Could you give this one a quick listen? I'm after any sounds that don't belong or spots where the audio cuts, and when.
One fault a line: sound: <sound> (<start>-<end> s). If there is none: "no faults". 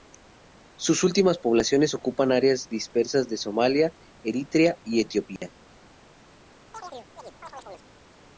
sound: dropout (5.4-5.4 s)
sound: chirp (6.7-7.9 s)